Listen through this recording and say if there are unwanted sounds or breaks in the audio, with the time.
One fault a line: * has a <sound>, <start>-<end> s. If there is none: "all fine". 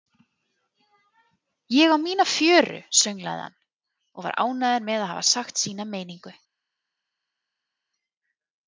all fine